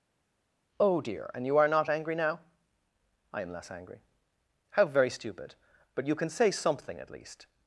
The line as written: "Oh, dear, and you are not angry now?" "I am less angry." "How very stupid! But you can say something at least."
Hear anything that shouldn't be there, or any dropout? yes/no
no